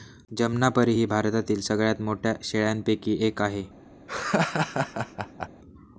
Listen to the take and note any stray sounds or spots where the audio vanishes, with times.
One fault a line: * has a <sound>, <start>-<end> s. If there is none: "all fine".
* has a laugh, 4.1-5.5 s